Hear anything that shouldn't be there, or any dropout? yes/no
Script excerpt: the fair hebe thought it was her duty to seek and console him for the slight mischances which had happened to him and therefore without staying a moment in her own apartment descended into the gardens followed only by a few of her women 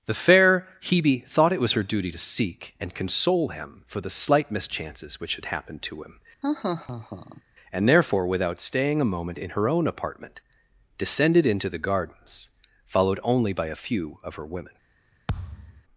yes